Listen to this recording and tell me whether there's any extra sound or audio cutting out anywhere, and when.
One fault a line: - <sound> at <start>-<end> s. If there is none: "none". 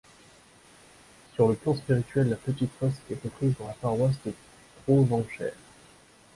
none